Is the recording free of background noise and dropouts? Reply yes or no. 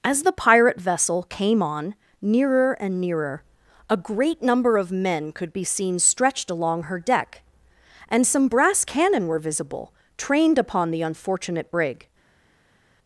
yes